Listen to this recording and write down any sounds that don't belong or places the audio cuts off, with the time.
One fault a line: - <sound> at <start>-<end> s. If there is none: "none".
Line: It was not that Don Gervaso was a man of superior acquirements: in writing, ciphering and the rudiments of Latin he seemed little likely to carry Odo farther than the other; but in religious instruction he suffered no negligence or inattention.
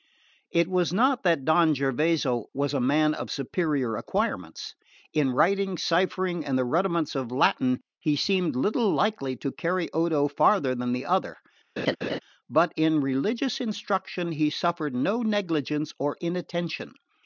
- laugh at 11.8-12.2 s